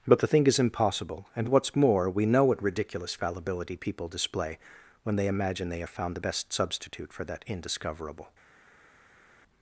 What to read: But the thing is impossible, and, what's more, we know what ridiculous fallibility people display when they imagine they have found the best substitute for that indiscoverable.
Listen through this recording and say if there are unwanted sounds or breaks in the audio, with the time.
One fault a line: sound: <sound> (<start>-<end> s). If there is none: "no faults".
no faults